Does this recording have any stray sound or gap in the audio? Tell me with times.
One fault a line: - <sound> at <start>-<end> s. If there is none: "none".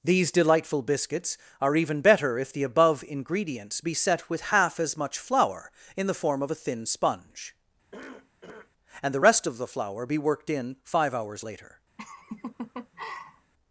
- cough at 7.9-8.7 s
- laugh at 12.0-13.5 s